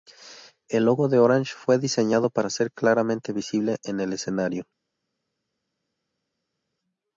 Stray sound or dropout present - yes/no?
no